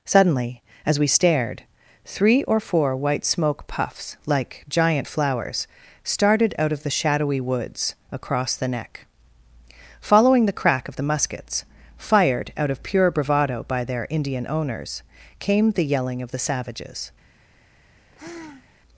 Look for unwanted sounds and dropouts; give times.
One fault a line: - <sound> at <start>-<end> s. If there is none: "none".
- sigh at 18.0-18.8 s